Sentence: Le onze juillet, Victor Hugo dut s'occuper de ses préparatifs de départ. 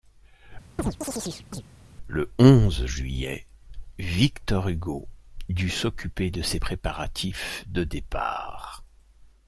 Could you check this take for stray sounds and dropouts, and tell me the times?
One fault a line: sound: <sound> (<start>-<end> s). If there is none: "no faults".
sound: chirp (0.8-1.6 s)